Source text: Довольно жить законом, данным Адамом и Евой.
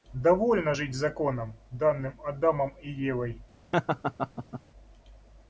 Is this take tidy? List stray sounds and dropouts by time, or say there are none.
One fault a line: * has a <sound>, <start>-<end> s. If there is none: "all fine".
* has a laugh, 3.7-4.6 s